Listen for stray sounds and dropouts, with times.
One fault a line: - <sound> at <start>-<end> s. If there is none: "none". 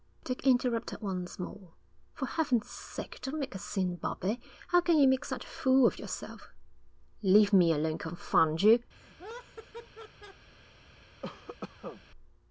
- laugh at 8.9-10.5 s
- cough at 11.2-12.0 s